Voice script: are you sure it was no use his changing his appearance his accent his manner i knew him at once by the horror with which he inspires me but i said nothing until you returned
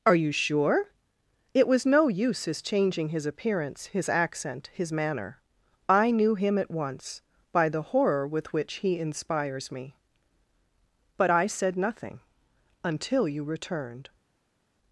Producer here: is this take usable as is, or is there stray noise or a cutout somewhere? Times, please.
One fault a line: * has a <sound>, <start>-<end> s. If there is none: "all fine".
all fine